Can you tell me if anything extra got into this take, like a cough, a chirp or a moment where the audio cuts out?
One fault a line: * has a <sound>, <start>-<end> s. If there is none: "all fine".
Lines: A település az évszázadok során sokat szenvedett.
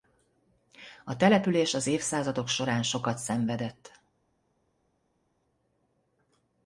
all fine